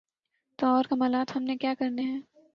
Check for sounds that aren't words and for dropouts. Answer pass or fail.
pass